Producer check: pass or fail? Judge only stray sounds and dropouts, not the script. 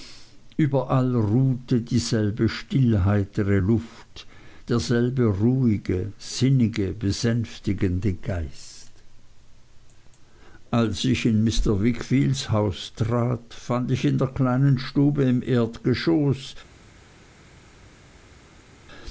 pass